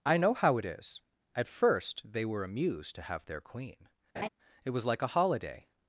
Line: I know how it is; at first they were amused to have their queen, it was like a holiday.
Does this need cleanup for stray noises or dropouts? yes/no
yes